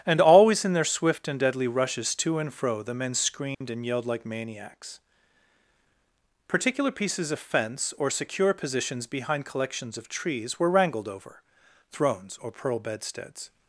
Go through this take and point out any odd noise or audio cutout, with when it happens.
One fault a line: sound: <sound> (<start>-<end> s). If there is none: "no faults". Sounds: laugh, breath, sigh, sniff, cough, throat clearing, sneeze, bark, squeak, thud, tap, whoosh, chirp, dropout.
sound: dropout (3.5-3.6 s)